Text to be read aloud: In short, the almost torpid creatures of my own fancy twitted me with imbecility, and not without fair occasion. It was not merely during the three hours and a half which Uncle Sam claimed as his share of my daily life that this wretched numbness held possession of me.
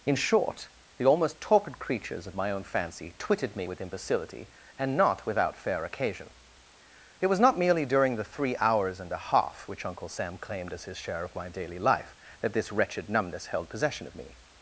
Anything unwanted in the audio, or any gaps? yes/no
no